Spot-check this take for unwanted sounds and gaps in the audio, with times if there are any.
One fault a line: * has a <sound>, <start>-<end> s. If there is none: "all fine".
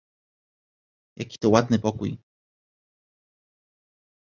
all fine